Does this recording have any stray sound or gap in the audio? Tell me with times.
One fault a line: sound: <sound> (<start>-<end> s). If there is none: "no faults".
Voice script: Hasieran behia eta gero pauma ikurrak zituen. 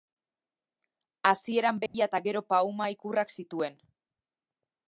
sound: dropout (1.9-1.9 s)